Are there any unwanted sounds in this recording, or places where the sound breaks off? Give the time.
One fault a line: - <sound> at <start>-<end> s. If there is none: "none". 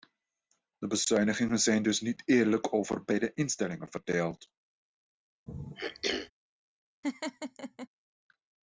- throat clearing at 5.5-6.3 s
- laugh at 7.0-7.9 s